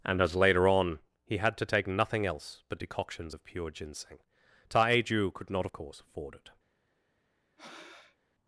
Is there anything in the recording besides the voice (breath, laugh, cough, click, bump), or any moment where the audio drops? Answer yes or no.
yes